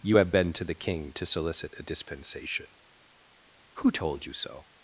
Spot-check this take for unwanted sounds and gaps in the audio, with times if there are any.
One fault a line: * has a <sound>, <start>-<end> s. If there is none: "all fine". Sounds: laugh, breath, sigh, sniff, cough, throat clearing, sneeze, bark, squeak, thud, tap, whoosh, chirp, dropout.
all fine